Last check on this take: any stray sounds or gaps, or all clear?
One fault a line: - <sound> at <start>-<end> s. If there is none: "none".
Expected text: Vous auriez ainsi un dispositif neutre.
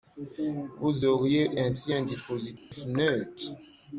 - dropout at 2.6-2.7 s